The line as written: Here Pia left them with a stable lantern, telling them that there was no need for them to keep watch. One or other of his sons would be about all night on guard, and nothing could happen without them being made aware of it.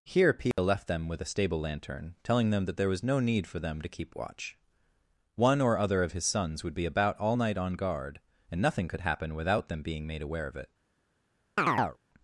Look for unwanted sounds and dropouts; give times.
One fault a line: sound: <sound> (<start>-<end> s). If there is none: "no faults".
sound: dropout (0.5-0.6 s)
sound: chirp (11.6-12.0 s)